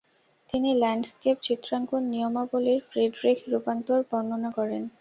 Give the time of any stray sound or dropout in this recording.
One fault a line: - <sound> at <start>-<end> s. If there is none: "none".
none